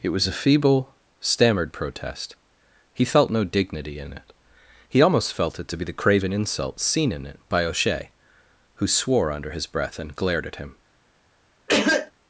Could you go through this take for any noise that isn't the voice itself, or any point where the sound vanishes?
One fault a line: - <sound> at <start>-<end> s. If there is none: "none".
- cough at 11.7-12.1 s